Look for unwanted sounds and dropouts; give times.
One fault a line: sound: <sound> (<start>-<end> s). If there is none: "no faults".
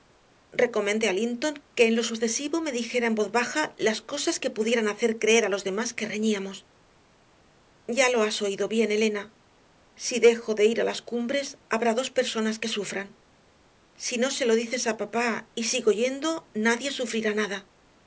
no faults